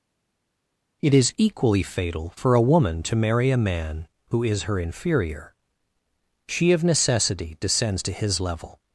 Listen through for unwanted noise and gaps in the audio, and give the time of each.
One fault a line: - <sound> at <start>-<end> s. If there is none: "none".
none